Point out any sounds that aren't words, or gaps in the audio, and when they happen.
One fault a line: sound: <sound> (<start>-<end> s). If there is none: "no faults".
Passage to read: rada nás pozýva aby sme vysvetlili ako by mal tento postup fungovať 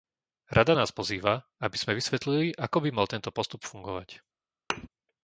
sound: thud (4.7-4.9 s)